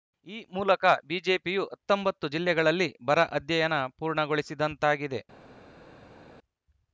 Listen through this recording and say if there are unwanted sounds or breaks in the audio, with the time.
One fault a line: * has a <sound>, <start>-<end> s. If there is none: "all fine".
all fine